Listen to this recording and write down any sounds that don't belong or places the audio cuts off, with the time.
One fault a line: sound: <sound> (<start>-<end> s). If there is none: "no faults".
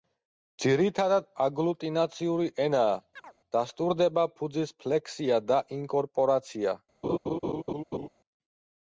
sound: chirp (3.2-3.3 s)
sound: laugh (7.0-8.1 s)